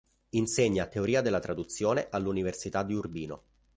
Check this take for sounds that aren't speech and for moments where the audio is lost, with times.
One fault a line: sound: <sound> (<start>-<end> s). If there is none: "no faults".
no faults